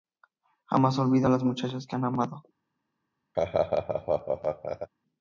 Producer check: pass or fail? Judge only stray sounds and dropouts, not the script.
fail